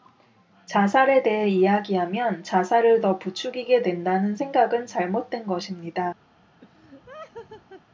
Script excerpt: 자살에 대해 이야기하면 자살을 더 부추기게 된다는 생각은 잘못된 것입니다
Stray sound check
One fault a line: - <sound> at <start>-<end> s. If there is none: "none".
- laugh at 6.6-7.8 s